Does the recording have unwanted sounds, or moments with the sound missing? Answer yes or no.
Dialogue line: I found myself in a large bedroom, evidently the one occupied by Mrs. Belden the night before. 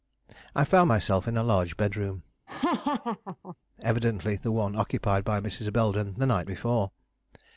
yes